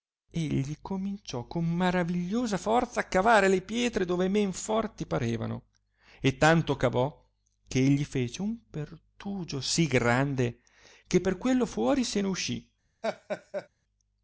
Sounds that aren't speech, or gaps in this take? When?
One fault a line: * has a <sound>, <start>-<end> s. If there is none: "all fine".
* has a laugh, 13.0-13.7 s